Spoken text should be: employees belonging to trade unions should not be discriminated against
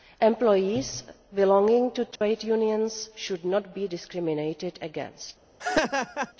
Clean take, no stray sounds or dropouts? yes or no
no